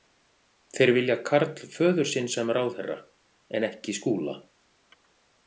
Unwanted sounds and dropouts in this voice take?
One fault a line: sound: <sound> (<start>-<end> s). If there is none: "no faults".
no faults